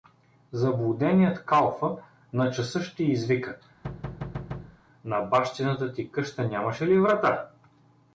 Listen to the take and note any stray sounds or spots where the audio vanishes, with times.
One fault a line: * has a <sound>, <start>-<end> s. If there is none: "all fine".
* has a thud, 3.8-4.8 s